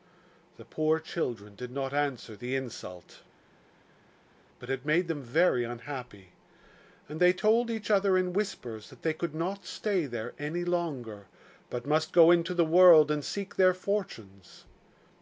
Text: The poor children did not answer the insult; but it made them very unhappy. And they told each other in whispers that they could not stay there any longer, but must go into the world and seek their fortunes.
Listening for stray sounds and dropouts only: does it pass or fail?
pass